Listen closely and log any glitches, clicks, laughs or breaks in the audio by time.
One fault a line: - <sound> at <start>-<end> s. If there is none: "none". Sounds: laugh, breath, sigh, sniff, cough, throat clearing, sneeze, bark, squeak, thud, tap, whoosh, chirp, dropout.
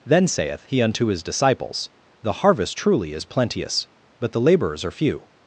none